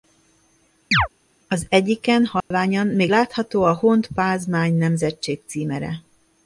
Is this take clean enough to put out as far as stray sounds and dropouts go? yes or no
no